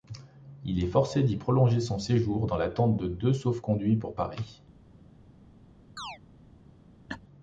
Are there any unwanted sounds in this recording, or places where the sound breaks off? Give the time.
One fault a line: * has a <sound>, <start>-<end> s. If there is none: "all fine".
* has a chirp, 6.0-6.2 s
* has a laugh, 7.1-7.2 s